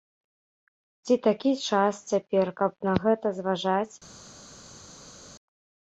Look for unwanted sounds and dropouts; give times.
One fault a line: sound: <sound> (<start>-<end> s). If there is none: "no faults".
no faults